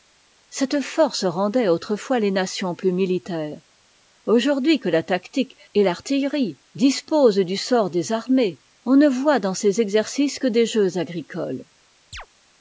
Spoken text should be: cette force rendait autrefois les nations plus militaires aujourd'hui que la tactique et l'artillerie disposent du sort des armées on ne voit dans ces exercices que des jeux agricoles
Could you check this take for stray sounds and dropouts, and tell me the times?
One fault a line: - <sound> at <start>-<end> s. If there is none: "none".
- chirp at 12.1-12.3 s